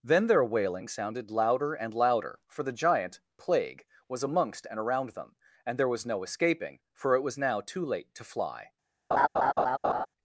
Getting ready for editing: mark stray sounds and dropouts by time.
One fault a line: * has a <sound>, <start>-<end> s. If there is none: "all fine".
* has a laugh, 9.1-10.1 s